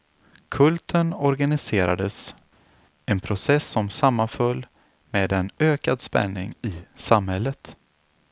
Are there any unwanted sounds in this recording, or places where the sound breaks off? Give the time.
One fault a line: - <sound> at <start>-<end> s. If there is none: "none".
none